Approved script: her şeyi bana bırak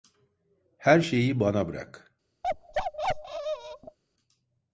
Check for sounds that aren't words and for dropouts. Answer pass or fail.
fail